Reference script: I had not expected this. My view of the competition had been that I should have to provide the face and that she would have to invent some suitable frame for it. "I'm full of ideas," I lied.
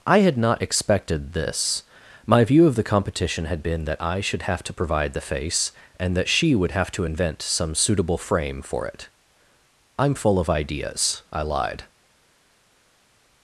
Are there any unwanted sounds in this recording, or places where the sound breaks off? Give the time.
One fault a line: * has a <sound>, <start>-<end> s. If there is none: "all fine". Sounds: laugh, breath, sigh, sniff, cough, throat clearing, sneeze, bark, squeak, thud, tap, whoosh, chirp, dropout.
all fine